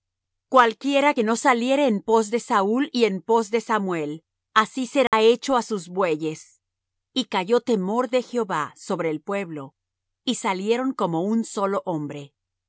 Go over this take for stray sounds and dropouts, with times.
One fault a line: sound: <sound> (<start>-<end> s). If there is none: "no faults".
sound: dropout (5.1-5.1 s)